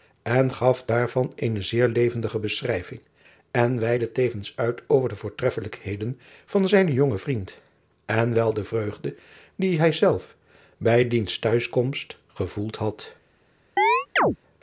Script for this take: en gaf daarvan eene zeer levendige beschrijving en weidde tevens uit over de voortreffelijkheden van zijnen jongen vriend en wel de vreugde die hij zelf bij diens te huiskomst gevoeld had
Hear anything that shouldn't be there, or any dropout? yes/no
yes